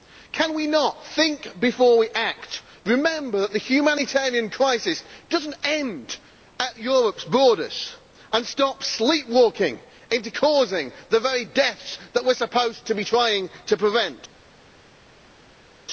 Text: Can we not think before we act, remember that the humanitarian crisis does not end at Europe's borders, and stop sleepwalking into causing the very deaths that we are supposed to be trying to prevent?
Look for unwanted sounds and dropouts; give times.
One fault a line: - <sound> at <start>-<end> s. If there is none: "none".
none